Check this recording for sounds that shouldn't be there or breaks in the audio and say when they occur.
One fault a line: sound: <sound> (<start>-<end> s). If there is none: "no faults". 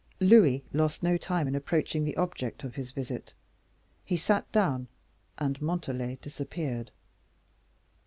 no faults